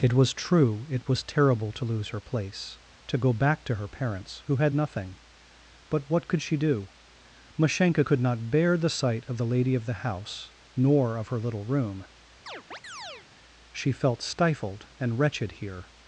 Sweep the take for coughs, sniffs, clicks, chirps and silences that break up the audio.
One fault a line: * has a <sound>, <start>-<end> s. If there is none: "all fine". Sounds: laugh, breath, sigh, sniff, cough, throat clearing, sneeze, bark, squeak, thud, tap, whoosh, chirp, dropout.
* has a chirp, 12.5-13.3 s